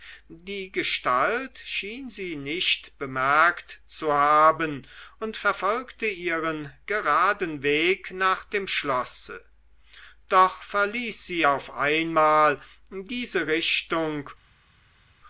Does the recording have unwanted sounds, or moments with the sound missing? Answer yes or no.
no